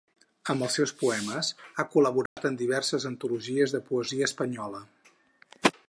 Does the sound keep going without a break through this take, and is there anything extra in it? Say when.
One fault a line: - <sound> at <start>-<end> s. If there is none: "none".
- dropout at 2.3-2.4 s